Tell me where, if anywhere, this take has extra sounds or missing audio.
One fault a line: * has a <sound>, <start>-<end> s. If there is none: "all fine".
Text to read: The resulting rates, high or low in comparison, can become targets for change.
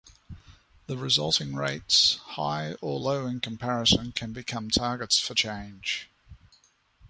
all fine